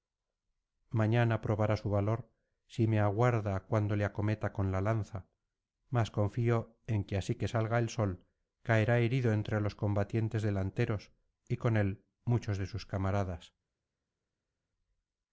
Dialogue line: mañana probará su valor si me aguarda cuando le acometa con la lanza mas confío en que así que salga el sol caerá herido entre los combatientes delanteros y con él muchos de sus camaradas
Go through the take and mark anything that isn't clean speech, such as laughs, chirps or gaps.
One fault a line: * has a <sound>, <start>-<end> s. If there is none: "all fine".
all fine